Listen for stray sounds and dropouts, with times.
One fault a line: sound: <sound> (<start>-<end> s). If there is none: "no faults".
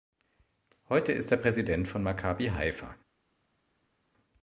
no faults